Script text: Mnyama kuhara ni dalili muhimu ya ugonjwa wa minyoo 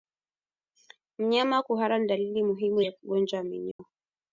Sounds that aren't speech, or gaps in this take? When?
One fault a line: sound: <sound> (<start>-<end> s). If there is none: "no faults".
sound: dropout (3.7-3.8 s)